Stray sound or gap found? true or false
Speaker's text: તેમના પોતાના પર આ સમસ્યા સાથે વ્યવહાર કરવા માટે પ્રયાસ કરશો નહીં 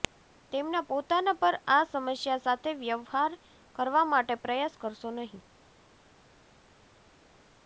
false